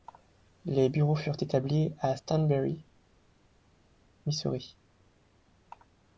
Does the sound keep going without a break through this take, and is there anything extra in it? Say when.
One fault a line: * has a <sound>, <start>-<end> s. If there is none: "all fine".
all fine